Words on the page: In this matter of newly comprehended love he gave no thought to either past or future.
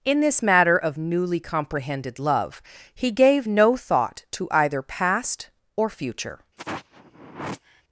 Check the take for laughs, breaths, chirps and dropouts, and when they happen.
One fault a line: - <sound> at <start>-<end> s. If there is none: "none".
- sigh at 6.6-7.8 s